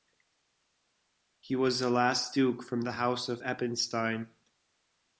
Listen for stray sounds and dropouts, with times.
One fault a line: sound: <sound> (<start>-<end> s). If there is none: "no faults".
no faults